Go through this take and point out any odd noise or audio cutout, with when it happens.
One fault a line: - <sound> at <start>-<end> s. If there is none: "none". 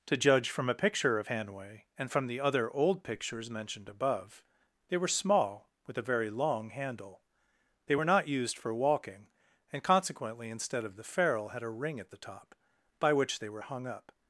none